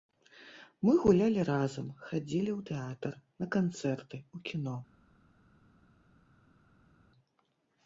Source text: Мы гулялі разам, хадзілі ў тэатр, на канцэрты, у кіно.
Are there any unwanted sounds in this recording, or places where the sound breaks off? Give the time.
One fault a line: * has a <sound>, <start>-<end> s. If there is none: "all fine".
all fine